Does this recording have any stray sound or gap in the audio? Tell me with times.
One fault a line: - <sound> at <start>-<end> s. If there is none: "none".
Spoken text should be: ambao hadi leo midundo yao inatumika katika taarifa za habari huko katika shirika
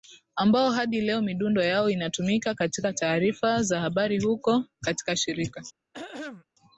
- throat clearing at 5.9-6.5 s